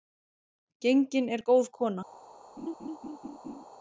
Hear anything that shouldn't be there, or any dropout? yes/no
yes